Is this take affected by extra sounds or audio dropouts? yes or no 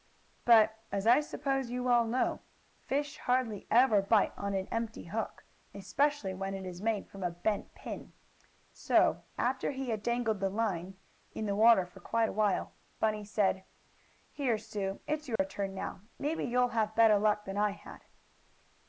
yes